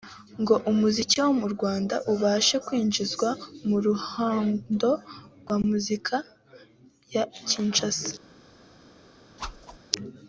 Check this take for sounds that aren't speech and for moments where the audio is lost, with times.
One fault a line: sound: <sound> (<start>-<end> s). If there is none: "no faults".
sound: whoosh (9.4-9.8 s)